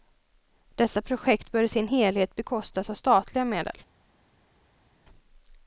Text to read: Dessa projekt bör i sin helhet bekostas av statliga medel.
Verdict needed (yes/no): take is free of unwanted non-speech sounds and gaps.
yes